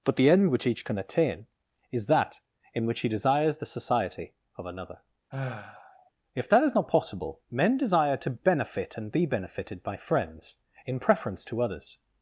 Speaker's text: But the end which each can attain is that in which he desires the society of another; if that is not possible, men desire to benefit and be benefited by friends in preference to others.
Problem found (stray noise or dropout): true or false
true